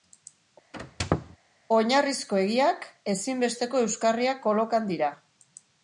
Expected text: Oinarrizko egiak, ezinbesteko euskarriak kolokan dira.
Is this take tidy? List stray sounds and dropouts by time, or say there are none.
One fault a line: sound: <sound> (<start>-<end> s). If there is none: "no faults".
sound: squeak (0.7-1.4 s)